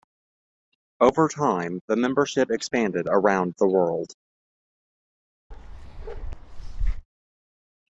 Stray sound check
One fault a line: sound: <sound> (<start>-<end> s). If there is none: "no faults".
sound: bark (5.5-7.1 s)